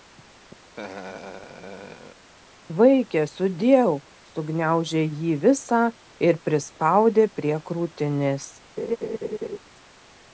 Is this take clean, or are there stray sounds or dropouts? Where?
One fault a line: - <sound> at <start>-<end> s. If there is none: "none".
- laugh at 0.7-2.2 s
- laugh at 8.8-9.6 s